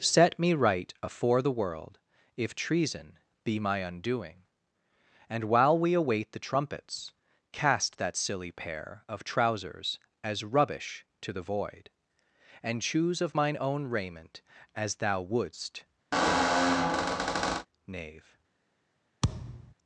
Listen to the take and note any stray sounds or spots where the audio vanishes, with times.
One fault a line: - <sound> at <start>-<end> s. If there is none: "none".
- squeak at 16.1-17.7 s
- thud at 19.2-19.7 s